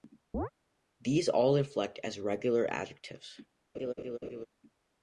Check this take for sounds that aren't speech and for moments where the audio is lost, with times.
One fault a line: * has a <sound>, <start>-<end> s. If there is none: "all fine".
* has a chirp, 0.3-0.5 s
* has a laugh, 3.7-4.5 s